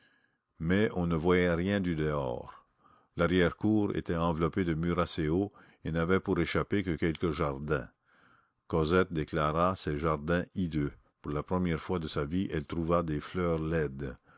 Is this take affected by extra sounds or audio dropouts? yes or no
no